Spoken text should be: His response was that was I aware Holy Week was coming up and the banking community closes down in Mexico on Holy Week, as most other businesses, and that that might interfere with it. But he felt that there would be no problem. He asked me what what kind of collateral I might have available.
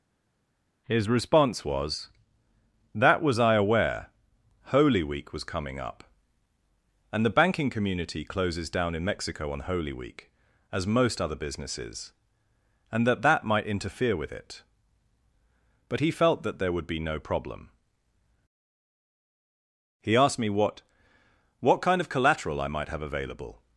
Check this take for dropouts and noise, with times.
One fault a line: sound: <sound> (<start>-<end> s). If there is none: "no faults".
no faults